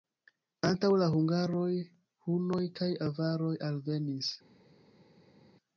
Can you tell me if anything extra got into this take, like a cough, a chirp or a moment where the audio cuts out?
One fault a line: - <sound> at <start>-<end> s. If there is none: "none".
none